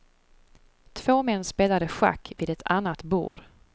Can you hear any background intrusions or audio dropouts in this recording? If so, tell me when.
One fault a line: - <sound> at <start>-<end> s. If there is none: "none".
- dropout at 3.3-3.4 s